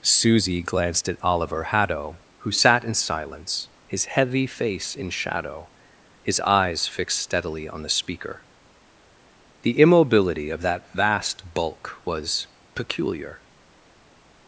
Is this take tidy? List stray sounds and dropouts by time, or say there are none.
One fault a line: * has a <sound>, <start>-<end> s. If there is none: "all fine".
all fine